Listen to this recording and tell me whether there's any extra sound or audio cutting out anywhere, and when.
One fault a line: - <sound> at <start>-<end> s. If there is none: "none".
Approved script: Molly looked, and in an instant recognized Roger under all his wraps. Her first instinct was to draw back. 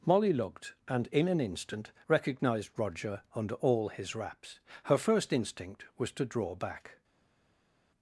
none